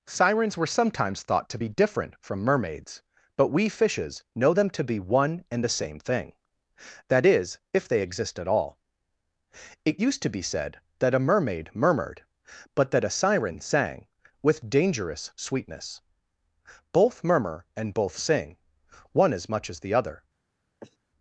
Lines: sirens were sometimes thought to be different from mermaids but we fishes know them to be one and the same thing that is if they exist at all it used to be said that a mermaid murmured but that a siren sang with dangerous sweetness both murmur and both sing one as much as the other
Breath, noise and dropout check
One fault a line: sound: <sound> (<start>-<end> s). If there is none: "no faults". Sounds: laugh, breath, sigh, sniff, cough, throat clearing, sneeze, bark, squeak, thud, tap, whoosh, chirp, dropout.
sound: sniff (20.8-21.0 s)